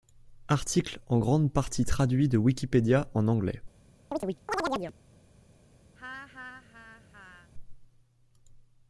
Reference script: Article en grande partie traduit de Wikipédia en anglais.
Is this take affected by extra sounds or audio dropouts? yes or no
yes